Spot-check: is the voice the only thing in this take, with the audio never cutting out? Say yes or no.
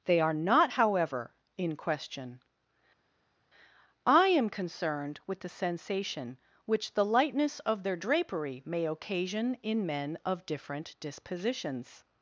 yes